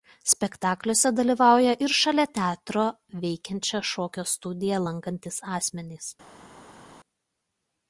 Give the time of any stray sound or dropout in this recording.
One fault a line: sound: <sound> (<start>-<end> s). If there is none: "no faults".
no faults